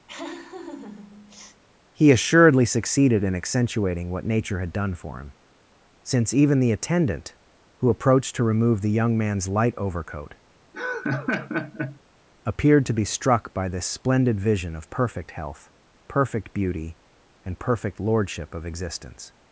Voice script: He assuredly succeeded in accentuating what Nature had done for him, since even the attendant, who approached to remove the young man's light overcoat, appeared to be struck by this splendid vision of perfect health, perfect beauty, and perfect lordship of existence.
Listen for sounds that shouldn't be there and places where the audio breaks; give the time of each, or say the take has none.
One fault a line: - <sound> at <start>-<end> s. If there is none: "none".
- laugh at 0.1-1.6 s
- laugh at 10.7-12.0 s